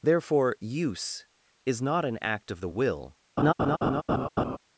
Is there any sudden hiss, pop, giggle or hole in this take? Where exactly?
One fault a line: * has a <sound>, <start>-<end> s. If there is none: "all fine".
* has a laugh, 3.4-4.6 s